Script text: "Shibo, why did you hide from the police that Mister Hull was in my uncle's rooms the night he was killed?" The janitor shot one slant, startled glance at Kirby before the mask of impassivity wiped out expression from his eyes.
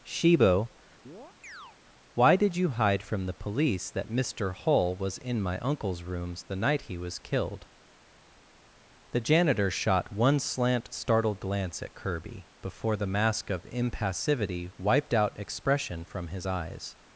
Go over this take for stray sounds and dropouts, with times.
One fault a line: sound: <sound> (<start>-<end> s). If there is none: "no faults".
sound: chirp (1.1-1.8 s)